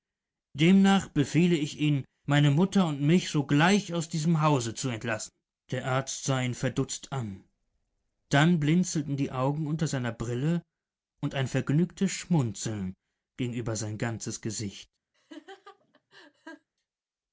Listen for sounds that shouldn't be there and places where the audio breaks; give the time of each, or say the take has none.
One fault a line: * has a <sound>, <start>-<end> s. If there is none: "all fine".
* has a laugh, 15.1-16.7 s